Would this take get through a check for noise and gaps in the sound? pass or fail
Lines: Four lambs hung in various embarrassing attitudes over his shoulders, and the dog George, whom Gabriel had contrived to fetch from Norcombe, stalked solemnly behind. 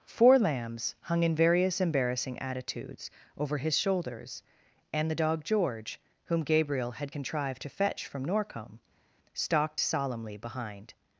pass